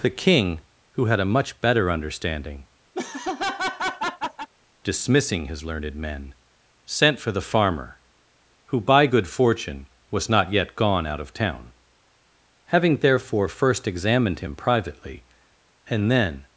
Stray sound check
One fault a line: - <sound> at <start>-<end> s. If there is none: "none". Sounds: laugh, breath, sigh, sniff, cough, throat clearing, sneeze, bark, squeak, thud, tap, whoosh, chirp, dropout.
- laugh at 2.9-4.5 s